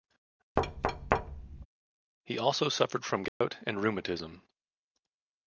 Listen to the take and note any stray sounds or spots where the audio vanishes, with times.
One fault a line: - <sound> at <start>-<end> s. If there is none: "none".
- thud at 0.6-1.7 s
- dropout at 3.3-3.4 s